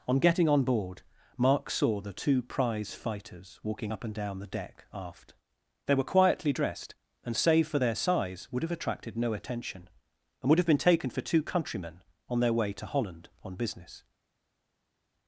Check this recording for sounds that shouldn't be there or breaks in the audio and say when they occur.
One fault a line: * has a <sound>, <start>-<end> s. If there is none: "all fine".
all fine